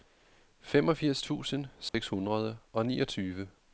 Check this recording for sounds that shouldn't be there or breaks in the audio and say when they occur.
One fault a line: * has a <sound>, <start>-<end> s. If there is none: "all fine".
* has a dropout, 1.9-1.9 s